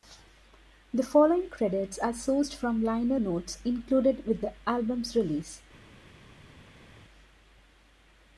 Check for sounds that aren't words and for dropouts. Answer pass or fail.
pass